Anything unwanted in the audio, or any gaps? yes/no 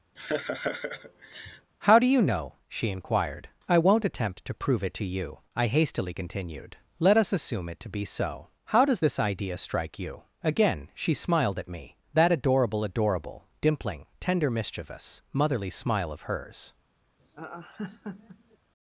yes